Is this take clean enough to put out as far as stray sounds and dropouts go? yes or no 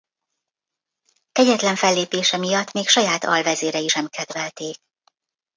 yes